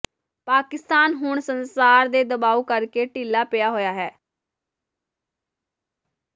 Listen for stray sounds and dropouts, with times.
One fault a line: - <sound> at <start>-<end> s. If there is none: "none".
none